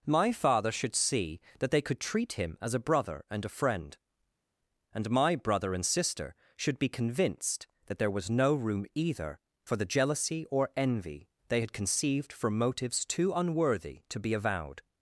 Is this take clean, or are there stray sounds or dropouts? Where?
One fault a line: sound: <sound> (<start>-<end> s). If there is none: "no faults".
no faults